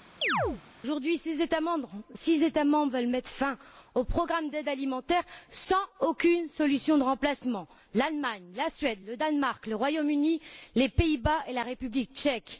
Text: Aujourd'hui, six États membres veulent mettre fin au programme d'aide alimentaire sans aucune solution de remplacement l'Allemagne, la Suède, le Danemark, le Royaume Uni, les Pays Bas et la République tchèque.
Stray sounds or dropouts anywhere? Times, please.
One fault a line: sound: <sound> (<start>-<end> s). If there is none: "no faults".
sound: chirp (0.2-0.6 s)